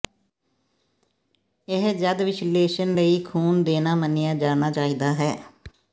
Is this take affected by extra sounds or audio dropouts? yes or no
no